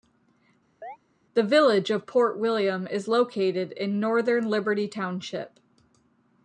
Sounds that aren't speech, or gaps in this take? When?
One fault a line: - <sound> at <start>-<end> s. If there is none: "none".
- chirp at 0.8-1.0 s